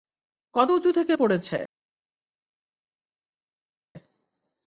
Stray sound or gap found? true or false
false